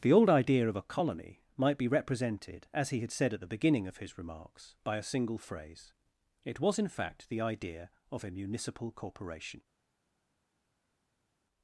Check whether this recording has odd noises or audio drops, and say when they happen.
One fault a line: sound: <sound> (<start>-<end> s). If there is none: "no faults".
no faults